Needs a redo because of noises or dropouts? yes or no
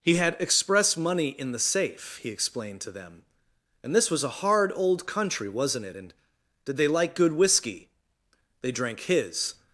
no